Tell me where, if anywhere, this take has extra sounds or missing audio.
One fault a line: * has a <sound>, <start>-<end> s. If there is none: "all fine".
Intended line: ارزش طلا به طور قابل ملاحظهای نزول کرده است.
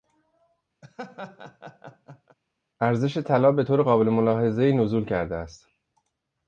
* has a laugh, 0.8-2.4 s